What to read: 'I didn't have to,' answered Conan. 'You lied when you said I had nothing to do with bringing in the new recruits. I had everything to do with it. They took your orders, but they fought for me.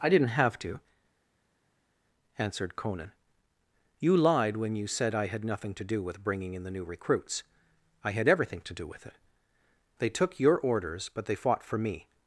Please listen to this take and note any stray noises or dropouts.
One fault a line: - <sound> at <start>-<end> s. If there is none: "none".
none